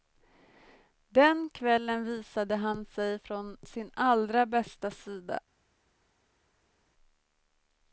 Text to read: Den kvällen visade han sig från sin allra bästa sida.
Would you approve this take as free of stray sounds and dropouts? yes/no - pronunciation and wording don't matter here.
yes